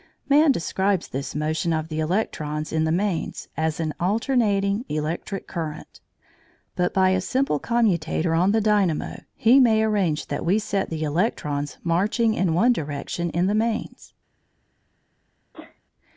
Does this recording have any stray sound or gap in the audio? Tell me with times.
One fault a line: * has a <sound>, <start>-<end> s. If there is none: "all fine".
* has a sneeze, 15.5-15.8 s